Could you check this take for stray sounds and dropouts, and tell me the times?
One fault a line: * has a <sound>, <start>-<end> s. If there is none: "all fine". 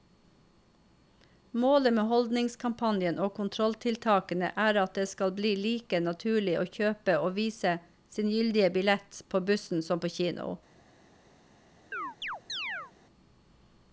* has a chirp, 11.9-12.9 s